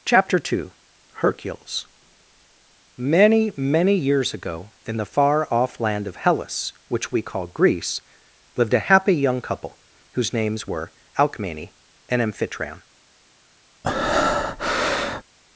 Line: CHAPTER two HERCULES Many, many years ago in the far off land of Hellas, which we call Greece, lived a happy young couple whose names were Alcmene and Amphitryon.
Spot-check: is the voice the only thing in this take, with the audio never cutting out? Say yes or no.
no